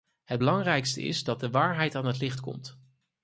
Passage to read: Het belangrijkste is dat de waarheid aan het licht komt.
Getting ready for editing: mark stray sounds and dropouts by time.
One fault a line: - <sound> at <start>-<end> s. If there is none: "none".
none